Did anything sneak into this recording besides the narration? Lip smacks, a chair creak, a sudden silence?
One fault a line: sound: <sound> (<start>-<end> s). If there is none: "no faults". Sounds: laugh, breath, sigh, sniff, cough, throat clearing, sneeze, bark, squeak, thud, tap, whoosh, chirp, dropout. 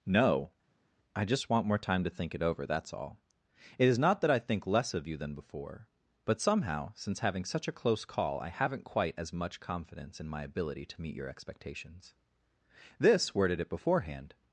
no faults